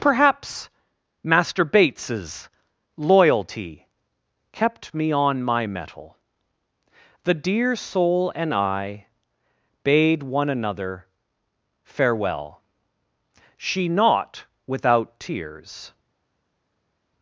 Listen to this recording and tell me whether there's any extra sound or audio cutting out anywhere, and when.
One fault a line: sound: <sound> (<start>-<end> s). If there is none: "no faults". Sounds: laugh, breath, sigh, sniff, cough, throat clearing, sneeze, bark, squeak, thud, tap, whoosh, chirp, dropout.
no faults